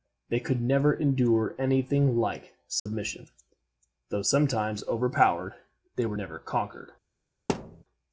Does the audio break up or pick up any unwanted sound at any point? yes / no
yes